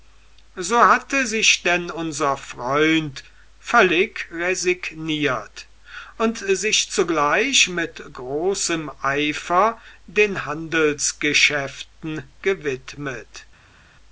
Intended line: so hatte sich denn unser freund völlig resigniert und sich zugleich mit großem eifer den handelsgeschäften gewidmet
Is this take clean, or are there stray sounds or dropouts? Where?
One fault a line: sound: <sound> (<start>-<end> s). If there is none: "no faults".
no faults